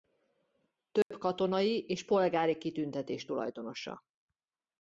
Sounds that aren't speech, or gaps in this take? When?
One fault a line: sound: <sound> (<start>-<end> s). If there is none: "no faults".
sound: dropout (1.0-1.1 s)